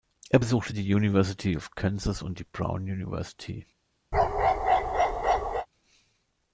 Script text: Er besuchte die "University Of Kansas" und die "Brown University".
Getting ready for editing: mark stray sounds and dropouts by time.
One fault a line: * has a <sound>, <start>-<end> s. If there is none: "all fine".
* has a bark, 4.1-5.7 s